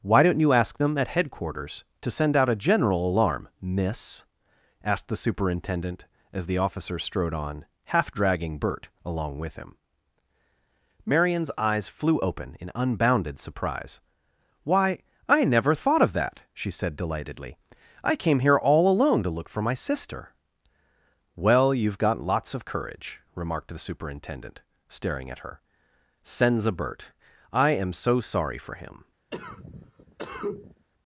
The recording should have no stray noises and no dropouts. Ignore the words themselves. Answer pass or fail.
fail